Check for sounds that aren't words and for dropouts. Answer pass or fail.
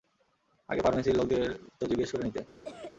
fail